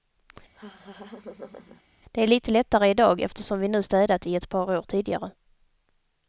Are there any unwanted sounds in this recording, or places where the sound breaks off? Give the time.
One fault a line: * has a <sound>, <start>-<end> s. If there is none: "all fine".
* has a laugh, 0.5-1.8 s